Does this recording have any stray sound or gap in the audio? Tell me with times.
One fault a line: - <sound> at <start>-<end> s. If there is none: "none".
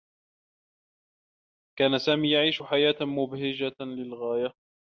none